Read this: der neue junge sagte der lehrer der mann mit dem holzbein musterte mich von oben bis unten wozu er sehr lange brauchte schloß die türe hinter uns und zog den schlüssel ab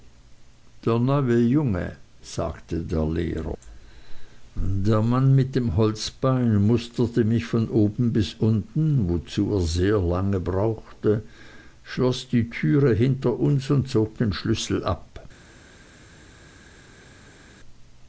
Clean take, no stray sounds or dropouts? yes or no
yes